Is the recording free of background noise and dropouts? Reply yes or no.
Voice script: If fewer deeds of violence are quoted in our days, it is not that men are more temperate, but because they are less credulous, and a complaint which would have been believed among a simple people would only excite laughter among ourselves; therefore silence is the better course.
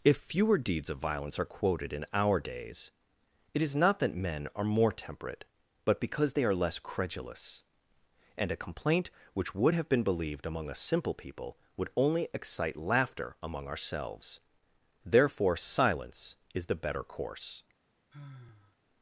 no